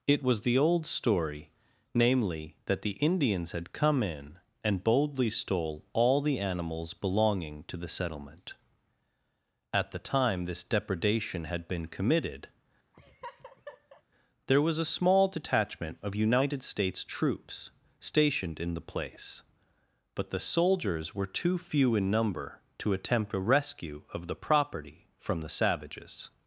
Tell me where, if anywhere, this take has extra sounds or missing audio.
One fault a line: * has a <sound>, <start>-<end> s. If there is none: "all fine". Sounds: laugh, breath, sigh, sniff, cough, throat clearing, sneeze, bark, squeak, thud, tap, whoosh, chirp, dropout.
* has a laugh, 12.9-14.0 s